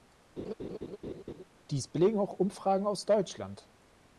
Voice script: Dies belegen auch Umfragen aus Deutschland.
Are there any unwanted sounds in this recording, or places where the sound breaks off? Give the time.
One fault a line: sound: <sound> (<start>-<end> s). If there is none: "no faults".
sound: laugh (0.4-1.4 s)